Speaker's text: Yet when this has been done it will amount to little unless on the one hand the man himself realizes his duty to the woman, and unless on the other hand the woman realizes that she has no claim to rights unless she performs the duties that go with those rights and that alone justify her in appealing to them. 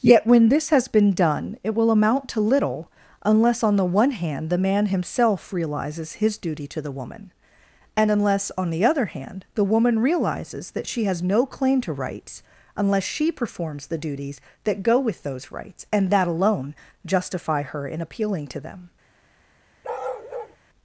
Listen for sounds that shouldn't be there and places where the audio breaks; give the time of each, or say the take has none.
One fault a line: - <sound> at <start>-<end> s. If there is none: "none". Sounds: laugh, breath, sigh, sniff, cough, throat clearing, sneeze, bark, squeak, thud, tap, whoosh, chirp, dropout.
- bark at 19.8-20.6 s